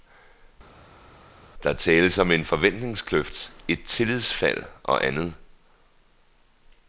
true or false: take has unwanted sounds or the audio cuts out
false